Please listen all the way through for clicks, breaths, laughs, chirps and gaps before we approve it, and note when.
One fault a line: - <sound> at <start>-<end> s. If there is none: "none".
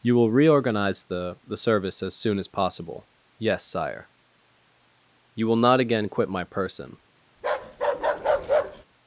- bark at 7.4-8.8 s